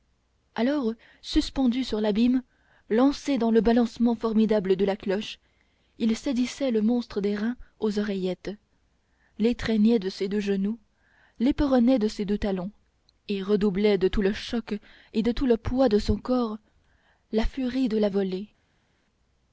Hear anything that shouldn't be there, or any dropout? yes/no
no